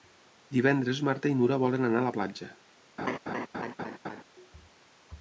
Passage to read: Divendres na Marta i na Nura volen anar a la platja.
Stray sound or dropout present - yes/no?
yes